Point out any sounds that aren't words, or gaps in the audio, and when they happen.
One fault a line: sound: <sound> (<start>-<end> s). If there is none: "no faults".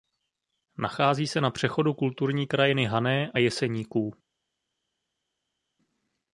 no faults